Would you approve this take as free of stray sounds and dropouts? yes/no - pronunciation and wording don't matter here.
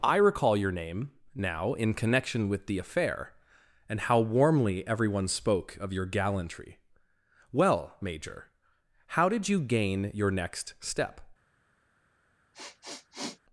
no